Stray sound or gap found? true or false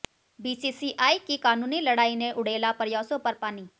false